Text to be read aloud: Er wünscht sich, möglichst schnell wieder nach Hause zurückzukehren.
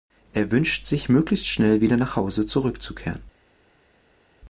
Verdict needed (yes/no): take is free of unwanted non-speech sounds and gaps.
yes